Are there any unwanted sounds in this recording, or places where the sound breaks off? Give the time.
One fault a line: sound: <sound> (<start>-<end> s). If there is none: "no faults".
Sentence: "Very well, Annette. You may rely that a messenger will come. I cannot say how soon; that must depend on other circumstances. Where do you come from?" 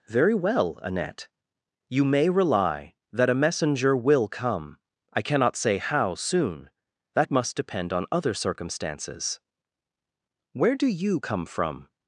no faults